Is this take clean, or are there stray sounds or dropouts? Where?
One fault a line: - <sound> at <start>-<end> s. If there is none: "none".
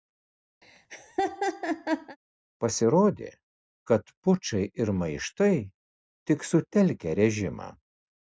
- laugh at 0.6-2.2 s